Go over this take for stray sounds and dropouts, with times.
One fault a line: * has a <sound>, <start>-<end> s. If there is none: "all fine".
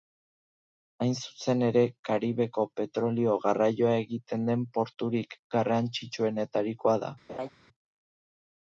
* has a laugh, 7.3-7.5 s